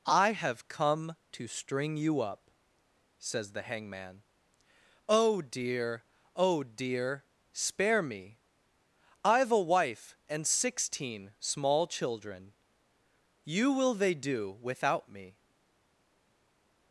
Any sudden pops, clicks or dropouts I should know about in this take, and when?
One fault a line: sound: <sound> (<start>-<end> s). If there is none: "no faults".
no faults